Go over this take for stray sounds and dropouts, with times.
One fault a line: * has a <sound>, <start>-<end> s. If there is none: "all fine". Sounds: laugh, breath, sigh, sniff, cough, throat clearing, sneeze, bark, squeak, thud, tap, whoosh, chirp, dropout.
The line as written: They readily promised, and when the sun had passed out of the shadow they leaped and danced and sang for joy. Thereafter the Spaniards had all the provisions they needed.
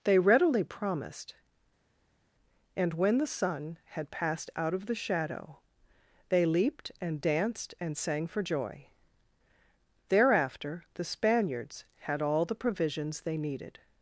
all fine